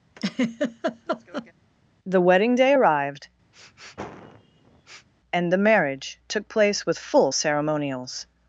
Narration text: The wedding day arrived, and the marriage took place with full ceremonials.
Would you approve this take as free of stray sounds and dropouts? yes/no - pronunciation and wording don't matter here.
no